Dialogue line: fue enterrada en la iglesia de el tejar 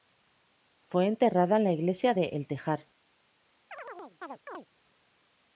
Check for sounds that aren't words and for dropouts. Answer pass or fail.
fail